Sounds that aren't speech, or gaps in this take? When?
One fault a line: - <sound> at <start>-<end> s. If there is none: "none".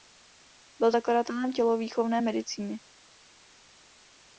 none